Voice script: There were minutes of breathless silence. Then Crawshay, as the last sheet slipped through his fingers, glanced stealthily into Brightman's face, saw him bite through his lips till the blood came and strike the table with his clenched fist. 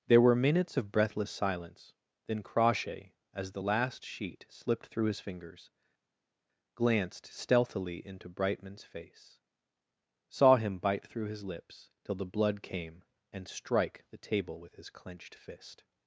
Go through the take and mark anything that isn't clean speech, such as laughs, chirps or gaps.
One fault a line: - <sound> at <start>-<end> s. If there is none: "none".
none